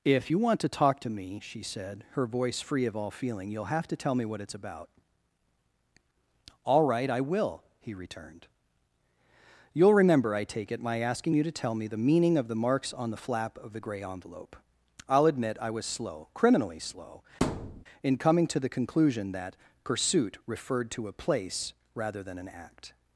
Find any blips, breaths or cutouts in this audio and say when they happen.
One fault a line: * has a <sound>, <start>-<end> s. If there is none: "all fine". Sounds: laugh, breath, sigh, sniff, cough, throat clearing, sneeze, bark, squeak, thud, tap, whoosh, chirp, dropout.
* has a thud, 17.4-17.8 s